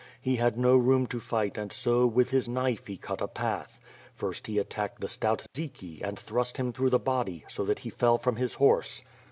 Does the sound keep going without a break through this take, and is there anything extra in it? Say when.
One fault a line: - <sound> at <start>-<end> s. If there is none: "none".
- dropout at 5.5-5.5 s